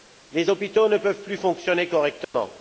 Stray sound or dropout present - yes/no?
yes